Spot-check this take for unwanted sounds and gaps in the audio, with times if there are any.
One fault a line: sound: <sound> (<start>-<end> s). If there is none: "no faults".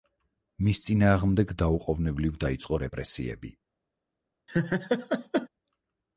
sound: laugh (4.5-5.5 s)